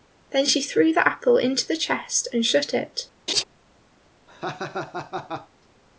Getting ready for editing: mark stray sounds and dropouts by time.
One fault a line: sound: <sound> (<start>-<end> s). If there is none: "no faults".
sound: laugh (3.3-3.4 s)
sound: laugh (4.3-5.5 s)